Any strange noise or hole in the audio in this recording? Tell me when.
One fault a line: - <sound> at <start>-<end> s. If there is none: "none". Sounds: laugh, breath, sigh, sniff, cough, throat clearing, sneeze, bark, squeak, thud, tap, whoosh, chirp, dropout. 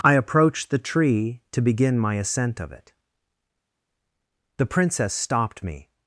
none